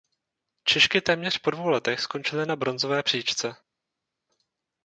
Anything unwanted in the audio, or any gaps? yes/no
no